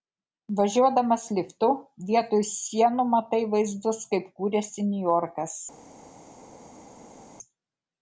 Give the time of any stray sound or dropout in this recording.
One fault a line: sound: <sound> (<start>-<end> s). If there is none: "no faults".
no faults